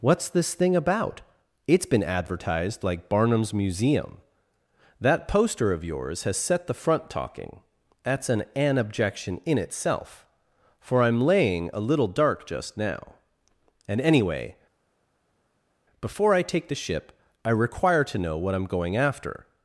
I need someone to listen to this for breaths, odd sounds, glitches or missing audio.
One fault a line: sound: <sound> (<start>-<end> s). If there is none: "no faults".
no faults